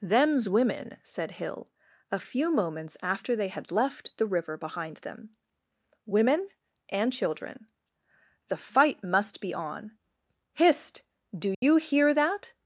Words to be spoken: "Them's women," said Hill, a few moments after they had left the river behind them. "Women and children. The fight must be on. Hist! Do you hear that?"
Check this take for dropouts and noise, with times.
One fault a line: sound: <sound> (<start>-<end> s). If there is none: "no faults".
sound: dropout (11.5-11.6 s)